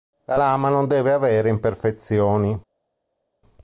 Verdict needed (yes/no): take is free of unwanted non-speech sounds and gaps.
yes